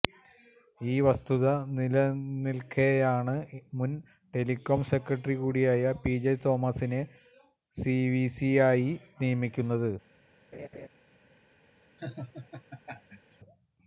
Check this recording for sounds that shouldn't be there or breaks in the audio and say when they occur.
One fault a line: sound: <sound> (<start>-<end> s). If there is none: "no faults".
sound: laugh (10.5-10.9 s)
sound: laugh (12.0-13.4 s)